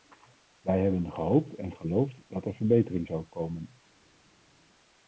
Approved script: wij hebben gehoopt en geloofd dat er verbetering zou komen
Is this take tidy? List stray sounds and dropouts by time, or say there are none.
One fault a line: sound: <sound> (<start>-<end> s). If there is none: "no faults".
no faults